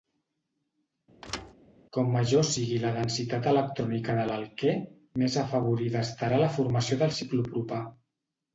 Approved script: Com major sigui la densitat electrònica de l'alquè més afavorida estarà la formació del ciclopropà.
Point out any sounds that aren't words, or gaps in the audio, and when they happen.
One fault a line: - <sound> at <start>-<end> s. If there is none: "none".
- thud at 1.2-1.5 s